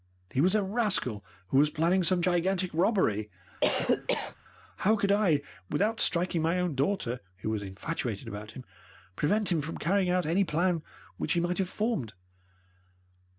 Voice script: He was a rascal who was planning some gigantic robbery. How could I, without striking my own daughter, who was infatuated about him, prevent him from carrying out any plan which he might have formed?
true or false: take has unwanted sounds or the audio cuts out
true